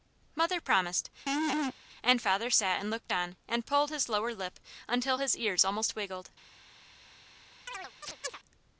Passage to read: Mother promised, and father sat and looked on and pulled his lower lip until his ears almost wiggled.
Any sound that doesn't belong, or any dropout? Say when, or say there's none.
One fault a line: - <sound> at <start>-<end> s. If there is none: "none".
- laugh at 1.3-1.7 s
- chirp at 7.7-8.4 s